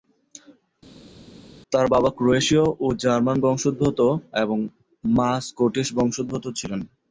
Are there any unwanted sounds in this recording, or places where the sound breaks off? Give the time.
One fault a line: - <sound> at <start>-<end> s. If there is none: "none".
none